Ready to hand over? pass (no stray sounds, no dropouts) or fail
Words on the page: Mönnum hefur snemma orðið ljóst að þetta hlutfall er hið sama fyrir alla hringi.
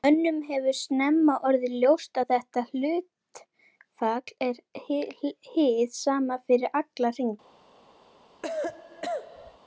fail